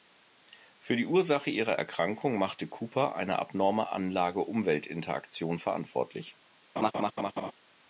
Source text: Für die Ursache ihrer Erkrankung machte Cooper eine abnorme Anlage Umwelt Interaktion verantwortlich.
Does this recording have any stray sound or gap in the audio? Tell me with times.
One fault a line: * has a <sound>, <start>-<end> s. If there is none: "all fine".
* has a laugh, 6.8-7.5 s